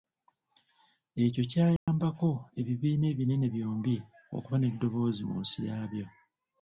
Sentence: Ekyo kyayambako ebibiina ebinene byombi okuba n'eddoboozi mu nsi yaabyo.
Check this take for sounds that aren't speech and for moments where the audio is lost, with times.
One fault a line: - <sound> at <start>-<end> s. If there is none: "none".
- dropout at 1.8-1.9 s